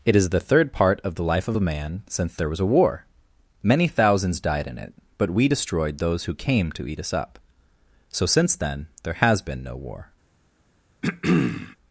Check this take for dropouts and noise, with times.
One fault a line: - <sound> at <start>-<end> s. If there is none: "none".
- throat clearing at 11.0-11.8 s